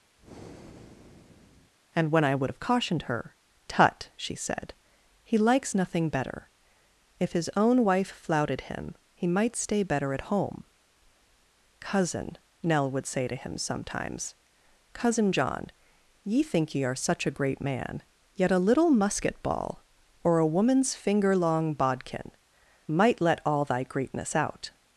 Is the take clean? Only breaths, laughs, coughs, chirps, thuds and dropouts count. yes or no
no